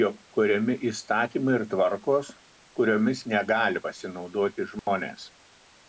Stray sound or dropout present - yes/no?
yes